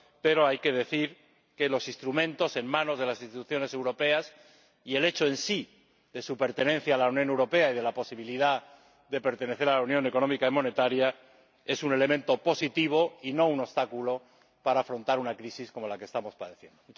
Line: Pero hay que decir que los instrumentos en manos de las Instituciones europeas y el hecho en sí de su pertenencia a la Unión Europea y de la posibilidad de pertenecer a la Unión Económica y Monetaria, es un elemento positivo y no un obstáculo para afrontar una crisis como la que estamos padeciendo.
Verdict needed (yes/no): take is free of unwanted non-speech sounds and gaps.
yes